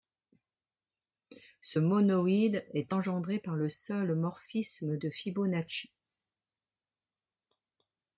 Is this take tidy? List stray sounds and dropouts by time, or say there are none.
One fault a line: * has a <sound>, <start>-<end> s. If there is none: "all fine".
all fine